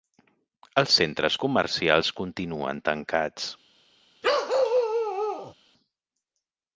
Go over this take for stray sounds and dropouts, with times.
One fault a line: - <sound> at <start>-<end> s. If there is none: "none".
- bark at 4.2-5.5 s